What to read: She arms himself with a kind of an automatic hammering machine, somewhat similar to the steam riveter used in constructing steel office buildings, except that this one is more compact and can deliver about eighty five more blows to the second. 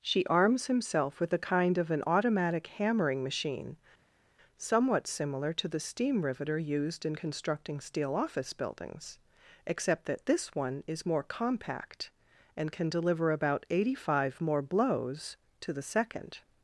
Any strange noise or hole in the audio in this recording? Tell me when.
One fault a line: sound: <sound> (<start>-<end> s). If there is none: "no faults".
no faults